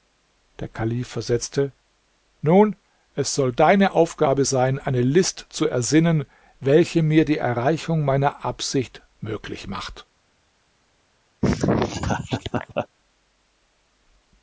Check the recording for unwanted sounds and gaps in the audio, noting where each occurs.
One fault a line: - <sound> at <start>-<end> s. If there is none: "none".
- laugh at 11.4-12.9 s